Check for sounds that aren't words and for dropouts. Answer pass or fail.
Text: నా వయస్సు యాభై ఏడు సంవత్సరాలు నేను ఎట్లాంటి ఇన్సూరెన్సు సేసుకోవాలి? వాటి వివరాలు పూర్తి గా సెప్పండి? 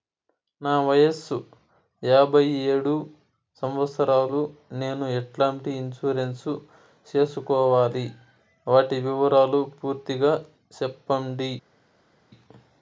pass